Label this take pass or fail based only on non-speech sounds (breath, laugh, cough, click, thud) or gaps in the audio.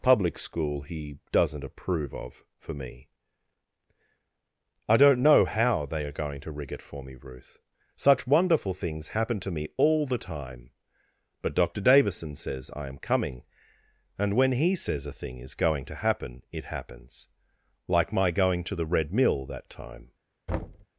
fail